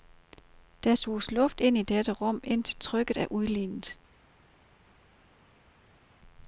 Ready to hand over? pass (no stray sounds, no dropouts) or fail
pass